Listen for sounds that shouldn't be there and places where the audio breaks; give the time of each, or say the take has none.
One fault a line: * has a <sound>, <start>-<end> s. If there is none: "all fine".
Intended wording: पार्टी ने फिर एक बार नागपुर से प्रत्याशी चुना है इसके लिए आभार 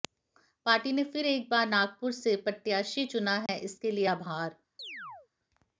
* has a dropout, 3.5-3.5 s
* has a chirp, 4.8-5.3 s